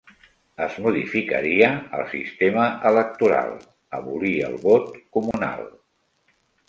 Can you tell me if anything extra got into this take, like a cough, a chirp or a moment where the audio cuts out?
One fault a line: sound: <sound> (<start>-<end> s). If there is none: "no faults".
sound: dropout (5.3-5.3 s)